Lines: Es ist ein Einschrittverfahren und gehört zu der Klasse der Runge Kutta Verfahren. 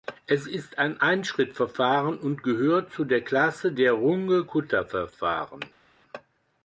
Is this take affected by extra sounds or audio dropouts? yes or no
no